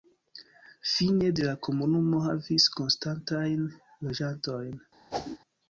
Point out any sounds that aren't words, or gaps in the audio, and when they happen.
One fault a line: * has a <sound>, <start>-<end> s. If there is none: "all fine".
* has a whoosh, 5.1-5.4 s